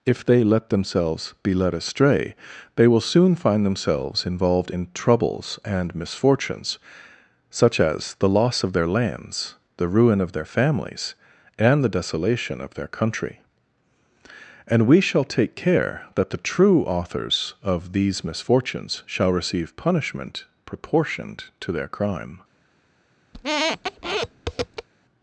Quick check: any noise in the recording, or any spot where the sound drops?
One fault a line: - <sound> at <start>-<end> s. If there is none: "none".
- squeak at 23.3-24.9 s